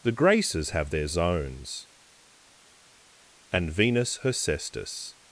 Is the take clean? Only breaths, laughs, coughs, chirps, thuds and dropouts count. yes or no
yes